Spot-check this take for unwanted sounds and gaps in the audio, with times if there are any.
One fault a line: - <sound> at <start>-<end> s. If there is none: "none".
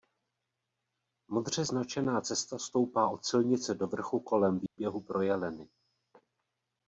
- dropout at 4.7-4.8 s